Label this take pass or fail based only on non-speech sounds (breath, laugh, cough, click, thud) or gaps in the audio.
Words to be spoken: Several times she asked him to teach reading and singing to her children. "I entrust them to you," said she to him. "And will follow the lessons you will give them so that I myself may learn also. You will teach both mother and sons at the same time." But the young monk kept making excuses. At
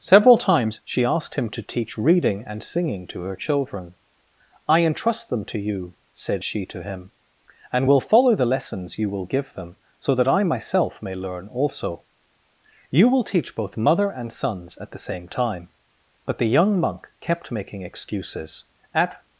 pass